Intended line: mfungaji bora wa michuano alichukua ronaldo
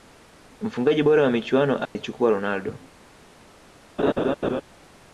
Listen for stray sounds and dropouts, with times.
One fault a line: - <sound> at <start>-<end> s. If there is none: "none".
- dropout at 1.9-2.0 s
- laugh at 4.0-4.6 s